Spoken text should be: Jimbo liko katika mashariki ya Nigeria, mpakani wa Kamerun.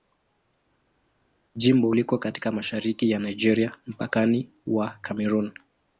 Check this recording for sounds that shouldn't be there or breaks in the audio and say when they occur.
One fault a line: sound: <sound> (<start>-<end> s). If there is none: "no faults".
no faults